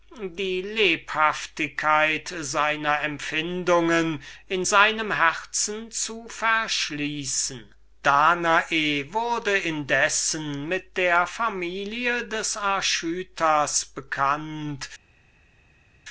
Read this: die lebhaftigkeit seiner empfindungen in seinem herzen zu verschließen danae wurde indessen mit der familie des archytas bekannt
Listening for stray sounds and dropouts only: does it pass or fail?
pass